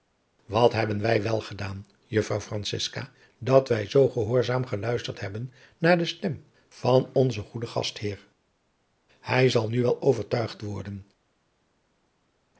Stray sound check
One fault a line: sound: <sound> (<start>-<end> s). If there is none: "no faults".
no faults